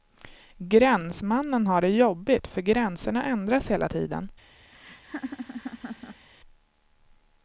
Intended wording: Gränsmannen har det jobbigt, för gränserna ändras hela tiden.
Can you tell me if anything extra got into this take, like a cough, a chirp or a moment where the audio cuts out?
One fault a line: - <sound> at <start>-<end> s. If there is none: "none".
- laugh at 4.7-6.3 s